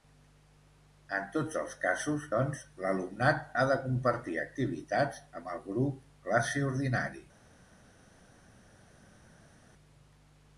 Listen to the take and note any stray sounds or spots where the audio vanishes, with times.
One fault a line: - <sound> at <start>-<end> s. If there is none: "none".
none